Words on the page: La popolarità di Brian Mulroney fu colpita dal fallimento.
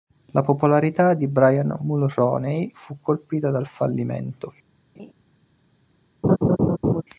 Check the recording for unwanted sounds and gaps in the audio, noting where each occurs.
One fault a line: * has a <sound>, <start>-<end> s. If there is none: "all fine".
* has a laugh, 4.9-5.1 s
* has a laugh, 6.2-7.0 s